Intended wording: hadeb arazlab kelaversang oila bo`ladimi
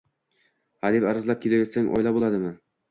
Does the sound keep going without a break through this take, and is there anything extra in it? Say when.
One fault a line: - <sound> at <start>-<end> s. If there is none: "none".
none